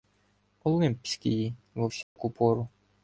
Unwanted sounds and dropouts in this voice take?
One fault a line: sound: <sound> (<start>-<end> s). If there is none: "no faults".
sound: dropout (2.0-2.2 s)